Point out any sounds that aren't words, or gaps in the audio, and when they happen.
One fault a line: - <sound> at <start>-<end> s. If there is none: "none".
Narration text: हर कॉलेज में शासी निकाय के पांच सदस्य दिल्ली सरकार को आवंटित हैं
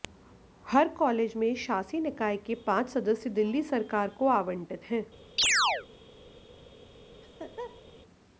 - chirp at 5.4-5.9 s
- laugh at 7.2-7.8 s